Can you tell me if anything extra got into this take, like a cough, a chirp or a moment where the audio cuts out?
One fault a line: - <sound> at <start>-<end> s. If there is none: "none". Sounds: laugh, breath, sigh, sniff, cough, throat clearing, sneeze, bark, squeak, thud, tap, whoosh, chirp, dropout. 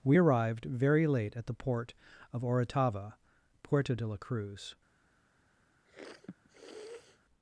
- sniff at 5.8-7.2 s